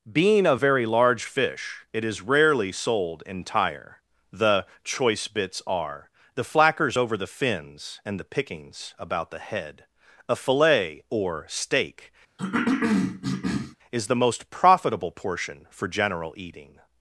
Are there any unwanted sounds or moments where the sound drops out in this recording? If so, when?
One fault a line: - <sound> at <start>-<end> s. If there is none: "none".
- cough at 12.4-13.8 s